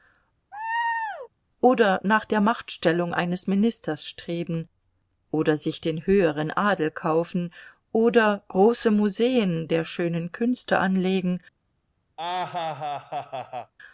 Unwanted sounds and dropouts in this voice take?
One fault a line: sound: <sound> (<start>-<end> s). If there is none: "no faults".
sound: laugh (0.5-1.3 s)
sound: laugh (12.2-13.7 s)